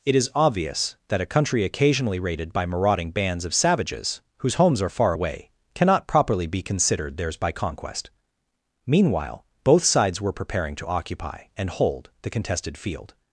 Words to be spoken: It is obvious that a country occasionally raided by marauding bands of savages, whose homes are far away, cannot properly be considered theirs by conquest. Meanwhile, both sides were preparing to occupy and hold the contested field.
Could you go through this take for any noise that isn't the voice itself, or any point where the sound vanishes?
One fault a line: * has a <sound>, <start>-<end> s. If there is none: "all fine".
all fine